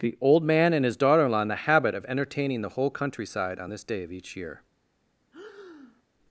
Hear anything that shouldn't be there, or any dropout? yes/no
yes